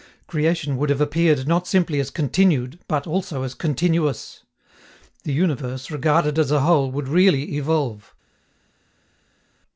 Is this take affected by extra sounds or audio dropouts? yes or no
no